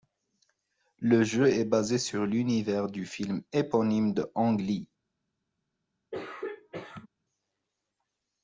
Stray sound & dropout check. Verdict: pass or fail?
fail